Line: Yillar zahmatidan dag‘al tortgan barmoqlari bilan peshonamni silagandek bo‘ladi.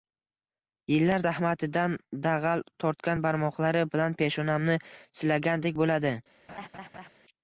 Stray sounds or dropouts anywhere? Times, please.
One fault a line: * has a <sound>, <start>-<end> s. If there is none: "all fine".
* has a laugh, 6.5-7.1 s